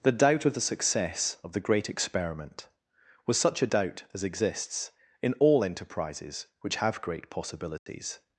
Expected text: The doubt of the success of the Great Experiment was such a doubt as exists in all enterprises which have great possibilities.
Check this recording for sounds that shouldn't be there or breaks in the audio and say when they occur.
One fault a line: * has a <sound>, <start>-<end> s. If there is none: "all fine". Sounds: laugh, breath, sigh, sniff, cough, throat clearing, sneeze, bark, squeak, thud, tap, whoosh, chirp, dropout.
* has a dropout, 7.8-7.9 s